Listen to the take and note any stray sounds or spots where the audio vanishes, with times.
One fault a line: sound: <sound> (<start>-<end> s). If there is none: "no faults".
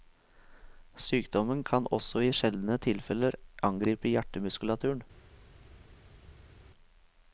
no faults